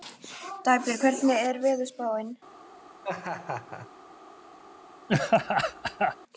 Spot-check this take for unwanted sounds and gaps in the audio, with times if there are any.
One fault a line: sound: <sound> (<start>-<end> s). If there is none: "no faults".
sound: laugh (3.0-3.9 s)
sound: laugh (5.1-6.2 s)